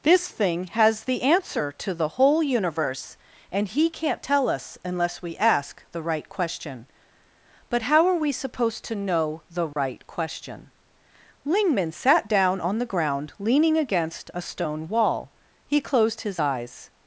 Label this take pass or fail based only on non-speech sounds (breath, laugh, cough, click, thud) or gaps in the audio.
fail